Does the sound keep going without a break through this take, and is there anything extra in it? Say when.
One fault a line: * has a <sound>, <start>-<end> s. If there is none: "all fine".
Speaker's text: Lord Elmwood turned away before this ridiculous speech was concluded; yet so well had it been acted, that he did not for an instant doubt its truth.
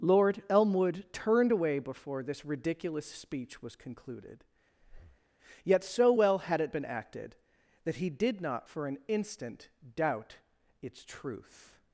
* has a breath, 4.8-5.2 s